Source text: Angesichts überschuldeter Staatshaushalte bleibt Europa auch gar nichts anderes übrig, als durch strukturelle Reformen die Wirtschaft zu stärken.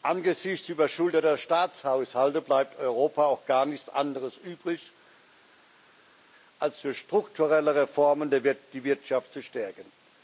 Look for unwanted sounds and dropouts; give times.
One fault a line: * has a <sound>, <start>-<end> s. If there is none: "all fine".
all fine